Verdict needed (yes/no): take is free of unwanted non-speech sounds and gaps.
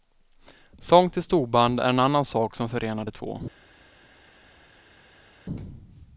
yes